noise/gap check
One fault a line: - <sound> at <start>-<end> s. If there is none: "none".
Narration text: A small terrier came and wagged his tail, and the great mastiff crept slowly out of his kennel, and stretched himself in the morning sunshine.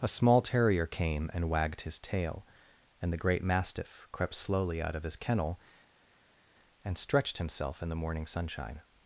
none